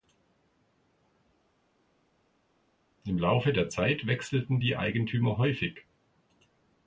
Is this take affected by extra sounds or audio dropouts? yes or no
no